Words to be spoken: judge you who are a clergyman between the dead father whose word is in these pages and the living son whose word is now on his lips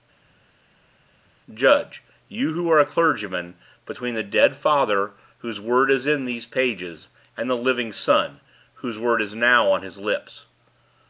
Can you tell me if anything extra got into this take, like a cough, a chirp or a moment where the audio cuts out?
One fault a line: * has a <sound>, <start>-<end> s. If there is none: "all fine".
all fine